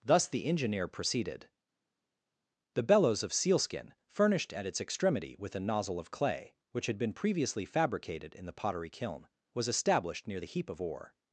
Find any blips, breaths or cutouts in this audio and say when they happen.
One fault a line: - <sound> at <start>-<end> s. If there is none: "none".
none